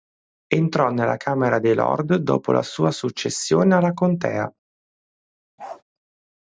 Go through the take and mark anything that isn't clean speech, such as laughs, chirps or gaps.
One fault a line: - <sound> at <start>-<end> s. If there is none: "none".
- bark at 5.6-5.8 s